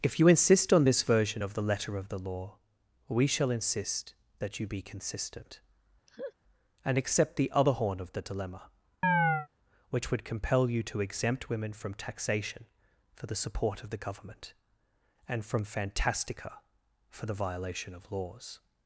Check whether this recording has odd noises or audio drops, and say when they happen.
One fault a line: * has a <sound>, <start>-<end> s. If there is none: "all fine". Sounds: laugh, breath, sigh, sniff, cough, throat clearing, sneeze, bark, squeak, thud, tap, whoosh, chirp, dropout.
* has a laugh, 6.1-6.3 s
* has a chirp, 9.0-9.5 s